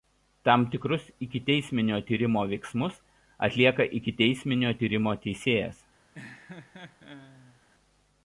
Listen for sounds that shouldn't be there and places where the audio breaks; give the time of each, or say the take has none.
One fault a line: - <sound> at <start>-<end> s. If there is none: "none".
- laugh at 6.1-7.6 s